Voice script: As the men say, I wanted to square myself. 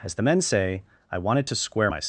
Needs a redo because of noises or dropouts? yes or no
no